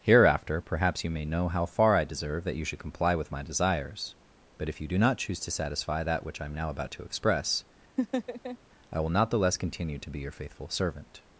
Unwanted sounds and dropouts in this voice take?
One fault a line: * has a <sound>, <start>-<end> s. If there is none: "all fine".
* has a laugh, 8.0-8.6 s